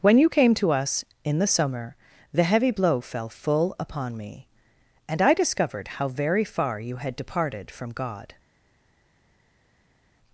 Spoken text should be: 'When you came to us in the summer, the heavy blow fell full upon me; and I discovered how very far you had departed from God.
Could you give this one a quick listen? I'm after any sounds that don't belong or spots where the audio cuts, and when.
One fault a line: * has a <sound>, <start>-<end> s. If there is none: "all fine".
all fine